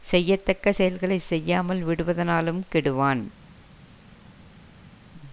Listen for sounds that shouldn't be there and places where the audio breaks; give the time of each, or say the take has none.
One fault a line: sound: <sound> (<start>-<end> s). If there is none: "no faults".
no faults